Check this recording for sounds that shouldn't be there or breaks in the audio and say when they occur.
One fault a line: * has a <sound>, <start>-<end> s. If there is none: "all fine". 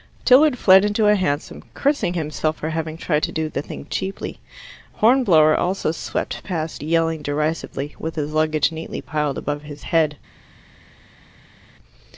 all fine